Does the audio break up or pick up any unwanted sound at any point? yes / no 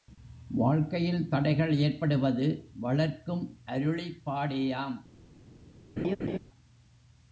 yes